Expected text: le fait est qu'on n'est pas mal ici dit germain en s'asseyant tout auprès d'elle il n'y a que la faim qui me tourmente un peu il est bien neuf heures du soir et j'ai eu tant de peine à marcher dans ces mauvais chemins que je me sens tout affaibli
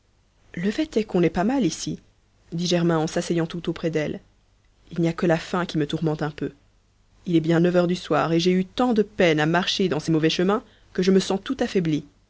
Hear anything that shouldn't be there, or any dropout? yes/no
no